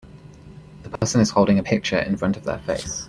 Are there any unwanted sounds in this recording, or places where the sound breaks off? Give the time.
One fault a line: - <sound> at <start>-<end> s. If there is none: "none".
- dropout at 1.0-1.0 s